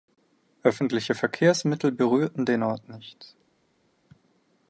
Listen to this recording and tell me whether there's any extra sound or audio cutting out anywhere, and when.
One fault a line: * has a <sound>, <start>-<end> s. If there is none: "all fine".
all fine